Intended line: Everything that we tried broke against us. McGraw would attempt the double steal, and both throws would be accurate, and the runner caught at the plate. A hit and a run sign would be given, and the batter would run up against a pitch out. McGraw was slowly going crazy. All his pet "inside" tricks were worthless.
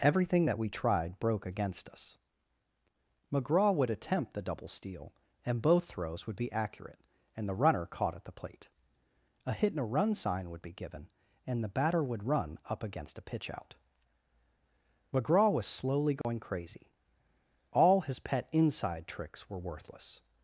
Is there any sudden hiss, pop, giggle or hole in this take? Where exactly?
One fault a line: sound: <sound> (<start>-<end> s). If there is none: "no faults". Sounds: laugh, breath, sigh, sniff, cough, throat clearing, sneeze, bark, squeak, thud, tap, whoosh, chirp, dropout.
sound: dropout (16.2-16.2 s)